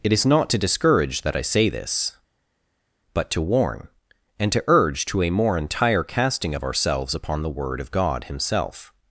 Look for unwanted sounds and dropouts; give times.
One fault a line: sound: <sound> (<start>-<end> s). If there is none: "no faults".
no faults